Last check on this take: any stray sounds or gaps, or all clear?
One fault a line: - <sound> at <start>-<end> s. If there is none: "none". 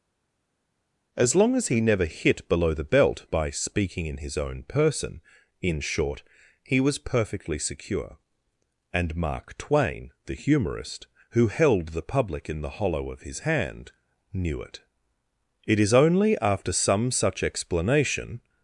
none